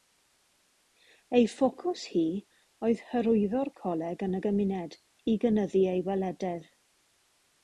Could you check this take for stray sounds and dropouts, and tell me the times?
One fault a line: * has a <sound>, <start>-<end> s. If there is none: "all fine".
all fine